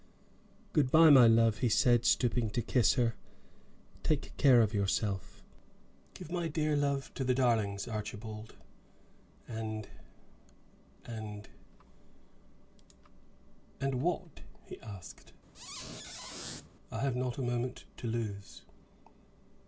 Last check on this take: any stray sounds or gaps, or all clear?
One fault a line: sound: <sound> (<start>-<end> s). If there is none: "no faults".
sound: squeak (15.5-16.7 s)